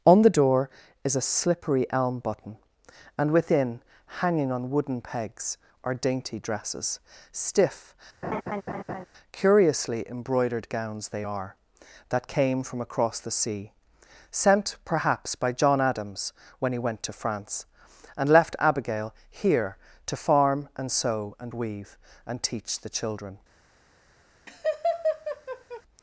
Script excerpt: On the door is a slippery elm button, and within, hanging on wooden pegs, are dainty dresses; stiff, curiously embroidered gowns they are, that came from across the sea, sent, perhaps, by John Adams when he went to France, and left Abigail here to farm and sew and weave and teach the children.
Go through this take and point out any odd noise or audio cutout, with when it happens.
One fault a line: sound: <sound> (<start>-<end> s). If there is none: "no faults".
sound: laugh (8.2-9.1 s)
sound: laugh (24.5-25.8 s)